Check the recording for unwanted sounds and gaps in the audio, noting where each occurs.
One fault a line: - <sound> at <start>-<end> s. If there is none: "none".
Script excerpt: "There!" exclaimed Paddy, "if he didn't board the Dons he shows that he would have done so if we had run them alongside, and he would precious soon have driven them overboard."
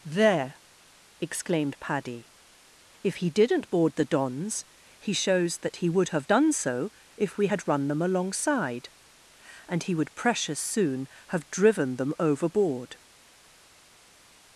none